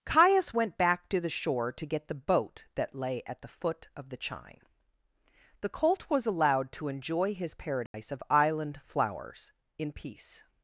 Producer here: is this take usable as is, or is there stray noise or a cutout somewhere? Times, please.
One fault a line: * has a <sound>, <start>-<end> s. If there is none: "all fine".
* has a dropout, 7.9-7.9 s